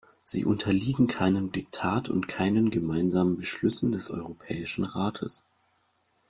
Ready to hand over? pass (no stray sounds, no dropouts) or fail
pass